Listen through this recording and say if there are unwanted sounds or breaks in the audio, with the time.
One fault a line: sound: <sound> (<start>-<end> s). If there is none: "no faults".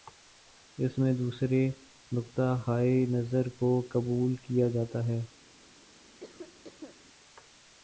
sound: cough (6.2-7.0 s)